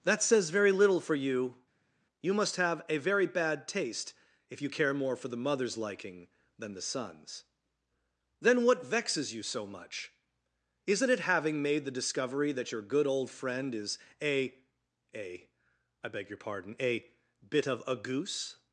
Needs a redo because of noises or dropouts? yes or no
no